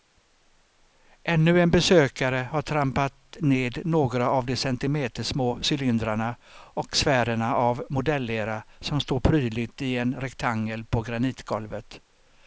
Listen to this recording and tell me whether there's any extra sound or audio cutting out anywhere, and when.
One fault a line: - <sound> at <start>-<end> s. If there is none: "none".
none